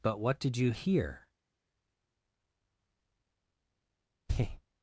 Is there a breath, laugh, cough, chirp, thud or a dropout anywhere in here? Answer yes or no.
no